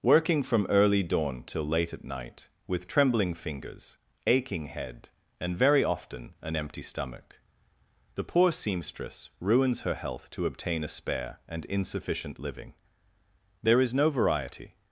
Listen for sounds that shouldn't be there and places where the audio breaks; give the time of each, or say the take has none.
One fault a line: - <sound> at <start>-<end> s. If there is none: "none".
none